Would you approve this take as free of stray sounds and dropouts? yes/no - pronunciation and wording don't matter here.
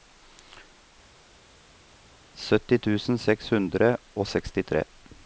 yes